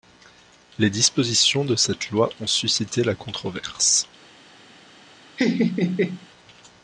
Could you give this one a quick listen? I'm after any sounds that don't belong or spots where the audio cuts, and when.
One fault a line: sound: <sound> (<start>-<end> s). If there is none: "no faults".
sound: laugh (5.4-6.3 s)